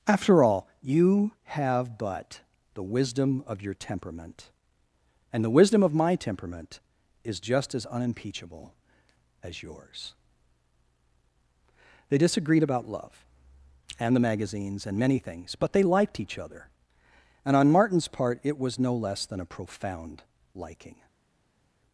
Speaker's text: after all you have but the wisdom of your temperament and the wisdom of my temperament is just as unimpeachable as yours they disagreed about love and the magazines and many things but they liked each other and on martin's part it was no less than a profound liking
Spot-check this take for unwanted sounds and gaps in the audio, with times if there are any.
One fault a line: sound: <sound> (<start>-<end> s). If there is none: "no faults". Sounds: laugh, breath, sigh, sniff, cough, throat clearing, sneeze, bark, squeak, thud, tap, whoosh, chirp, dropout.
no faults